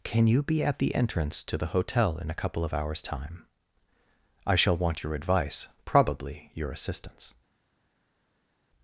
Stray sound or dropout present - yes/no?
no